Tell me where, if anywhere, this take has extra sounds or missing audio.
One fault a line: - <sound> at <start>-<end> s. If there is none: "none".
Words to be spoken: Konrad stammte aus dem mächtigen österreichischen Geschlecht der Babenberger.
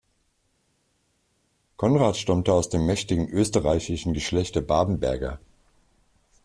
none